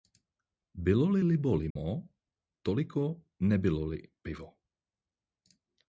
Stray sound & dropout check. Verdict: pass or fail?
fail